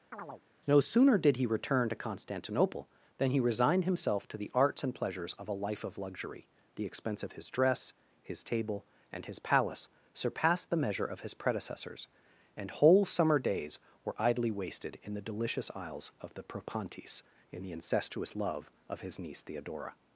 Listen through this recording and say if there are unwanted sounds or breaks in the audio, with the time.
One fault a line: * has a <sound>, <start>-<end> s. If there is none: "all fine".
* has a chirp, 0.1-0.4 s